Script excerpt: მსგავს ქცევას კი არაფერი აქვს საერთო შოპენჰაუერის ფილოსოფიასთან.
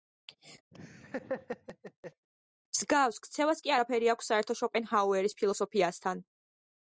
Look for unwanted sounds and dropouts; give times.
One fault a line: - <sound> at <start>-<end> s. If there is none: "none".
- laugh at 0.7-2.3 s